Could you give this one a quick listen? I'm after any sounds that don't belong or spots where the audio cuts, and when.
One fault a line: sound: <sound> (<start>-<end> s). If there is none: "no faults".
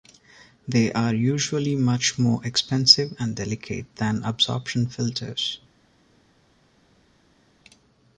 no faults